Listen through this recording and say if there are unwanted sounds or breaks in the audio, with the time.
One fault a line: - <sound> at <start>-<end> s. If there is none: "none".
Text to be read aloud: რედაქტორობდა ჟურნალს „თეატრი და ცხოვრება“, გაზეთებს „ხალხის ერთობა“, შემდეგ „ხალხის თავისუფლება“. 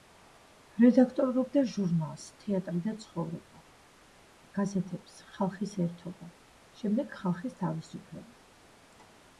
none